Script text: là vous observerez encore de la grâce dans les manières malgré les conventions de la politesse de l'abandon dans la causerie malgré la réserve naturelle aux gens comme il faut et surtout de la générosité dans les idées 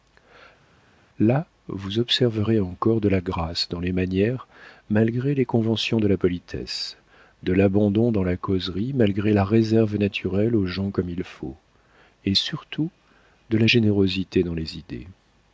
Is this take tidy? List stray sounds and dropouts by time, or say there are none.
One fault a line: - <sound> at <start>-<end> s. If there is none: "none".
none